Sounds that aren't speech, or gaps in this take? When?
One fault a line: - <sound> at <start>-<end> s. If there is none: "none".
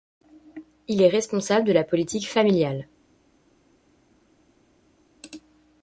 none